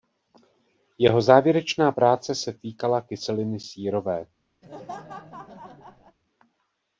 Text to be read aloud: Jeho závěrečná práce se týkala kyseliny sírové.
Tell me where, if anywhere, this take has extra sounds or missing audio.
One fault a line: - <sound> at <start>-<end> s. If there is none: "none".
- laugh at 4.6-6.2 s